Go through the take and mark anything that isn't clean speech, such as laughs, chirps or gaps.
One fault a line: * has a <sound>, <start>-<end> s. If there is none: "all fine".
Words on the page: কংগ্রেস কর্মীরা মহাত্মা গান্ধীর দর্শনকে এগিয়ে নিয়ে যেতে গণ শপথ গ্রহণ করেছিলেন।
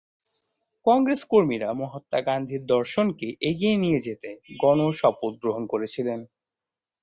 all fine